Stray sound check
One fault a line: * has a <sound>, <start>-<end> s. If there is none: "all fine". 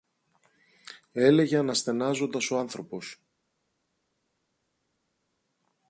all fine